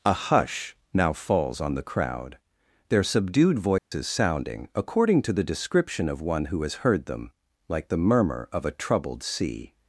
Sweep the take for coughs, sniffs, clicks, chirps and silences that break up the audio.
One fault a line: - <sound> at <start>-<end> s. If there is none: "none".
- dropout at 3.8-3.9 s